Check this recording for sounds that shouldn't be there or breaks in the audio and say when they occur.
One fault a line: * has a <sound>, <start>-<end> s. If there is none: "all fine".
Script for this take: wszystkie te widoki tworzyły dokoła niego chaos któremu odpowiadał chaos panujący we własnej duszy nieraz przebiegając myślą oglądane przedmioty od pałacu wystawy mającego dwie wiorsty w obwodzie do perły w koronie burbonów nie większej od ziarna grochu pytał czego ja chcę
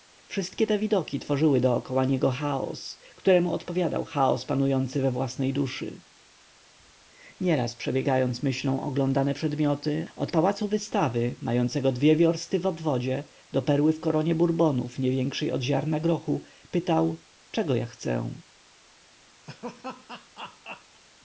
* has a laugh, 19.5-21.0 s